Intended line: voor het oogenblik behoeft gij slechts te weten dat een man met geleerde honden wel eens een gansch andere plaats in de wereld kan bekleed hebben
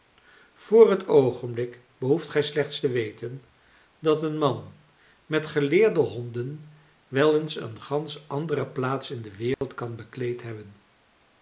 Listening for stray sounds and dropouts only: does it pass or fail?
fail